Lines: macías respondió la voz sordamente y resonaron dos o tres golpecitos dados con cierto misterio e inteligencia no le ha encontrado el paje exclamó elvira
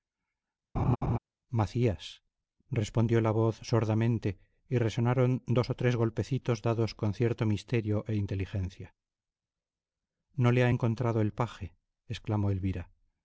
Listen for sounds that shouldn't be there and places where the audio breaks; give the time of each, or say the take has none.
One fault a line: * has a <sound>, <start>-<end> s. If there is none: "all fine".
* has a laugh, 0.8-1.2 s